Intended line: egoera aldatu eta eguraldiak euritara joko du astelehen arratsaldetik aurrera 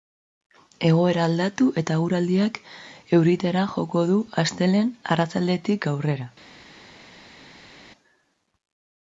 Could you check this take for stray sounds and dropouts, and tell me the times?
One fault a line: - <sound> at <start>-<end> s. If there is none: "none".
none